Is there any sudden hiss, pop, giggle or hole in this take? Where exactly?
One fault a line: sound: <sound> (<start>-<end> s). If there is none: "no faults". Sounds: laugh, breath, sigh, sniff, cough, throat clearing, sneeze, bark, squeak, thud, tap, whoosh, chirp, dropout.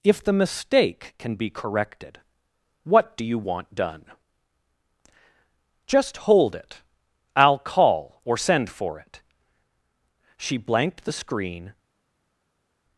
no faults